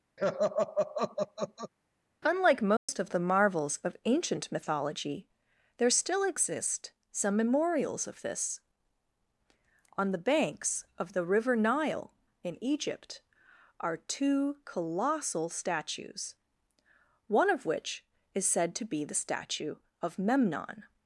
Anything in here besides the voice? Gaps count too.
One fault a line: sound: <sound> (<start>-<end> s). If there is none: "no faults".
sound: laugh (0.2-1.7 s)
sound: dropout (2.8-2.9 s)